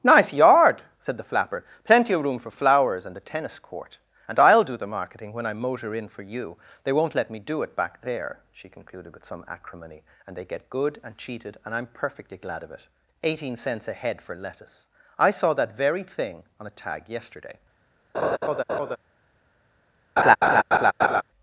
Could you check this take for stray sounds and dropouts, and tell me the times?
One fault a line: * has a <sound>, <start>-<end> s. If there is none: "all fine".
* has a laugh, 18.1-19.0 s
* has a laugh, 20.2-21.2 s